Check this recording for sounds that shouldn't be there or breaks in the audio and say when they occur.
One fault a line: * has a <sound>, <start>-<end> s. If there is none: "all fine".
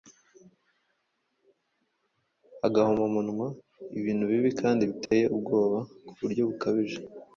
* has a dropout, 5.1-5.1 s